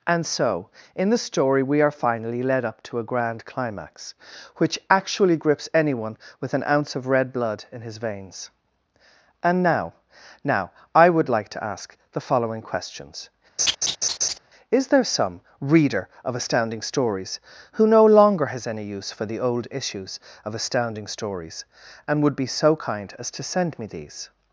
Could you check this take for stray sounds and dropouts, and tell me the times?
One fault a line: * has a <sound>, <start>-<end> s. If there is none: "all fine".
* has a laugh, 13.6-14.4 s